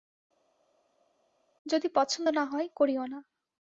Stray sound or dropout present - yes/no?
no